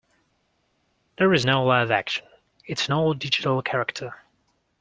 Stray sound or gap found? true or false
false